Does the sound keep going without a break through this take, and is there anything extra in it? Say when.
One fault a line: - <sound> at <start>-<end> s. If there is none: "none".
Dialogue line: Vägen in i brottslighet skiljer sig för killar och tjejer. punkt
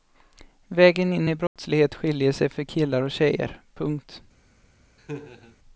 - dropout at 1.5-1.6 s
- laugh at 5.0-5.6 s